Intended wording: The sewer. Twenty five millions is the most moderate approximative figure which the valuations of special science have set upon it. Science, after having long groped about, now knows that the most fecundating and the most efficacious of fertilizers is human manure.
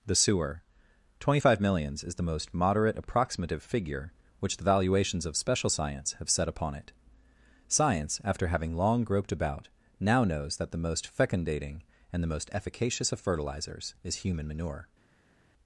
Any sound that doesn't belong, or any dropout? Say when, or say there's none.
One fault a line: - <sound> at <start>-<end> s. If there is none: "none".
none